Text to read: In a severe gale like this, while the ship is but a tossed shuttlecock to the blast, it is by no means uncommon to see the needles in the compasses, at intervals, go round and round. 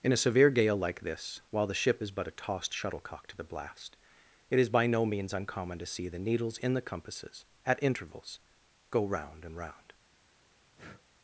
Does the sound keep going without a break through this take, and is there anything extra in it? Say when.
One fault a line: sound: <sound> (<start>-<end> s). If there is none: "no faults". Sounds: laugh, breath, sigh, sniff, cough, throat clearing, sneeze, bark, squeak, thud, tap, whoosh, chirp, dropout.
sound: breath (10.8-11.0 s)